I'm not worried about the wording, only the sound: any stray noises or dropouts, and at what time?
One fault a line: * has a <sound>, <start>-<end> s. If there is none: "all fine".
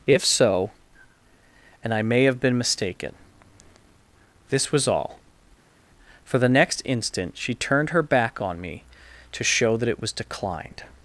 all fine